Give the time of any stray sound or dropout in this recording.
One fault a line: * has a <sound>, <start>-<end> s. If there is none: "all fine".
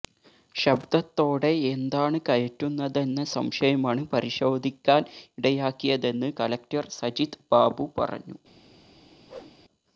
* has a whoosh, 9.3-9.6 s